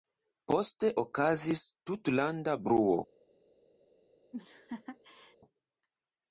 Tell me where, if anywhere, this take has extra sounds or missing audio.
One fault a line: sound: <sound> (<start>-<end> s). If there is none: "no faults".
sound: laugh (4.3-5.4 s)